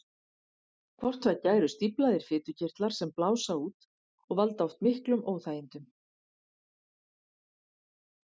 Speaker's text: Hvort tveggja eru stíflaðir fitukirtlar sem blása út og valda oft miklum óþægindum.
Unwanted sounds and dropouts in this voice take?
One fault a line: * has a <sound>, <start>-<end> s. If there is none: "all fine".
all fine